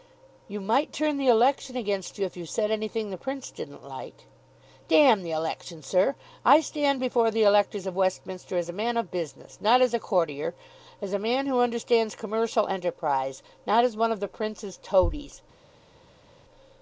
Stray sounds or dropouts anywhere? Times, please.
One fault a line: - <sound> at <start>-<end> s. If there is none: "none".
none